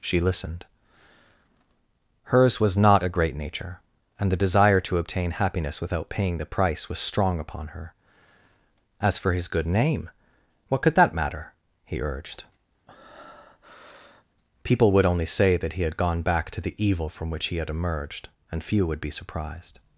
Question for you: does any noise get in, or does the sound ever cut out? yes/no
yes